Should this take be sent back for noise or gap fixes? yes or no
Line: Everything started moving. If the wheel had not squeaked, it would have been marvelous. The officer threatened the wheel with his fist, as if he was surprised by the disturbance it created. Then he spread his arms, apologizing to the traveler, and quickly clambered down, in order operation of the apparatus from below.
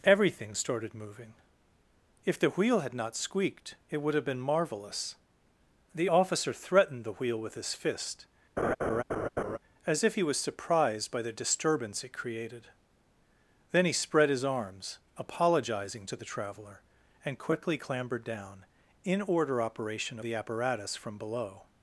yes